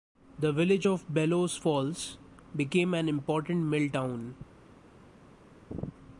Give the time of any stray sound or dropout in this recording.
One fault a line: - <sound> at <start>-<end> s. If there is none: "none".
none